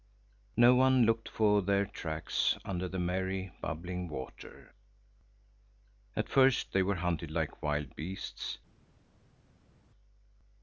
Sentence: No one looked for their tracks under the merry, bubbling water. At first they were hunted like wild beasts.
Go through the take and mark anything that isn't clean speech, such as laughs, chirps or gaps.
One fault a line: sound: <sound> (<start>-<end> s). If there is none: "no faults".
no faults